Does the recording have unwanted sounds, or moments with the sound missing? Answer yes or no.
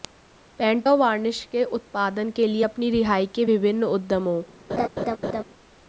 yes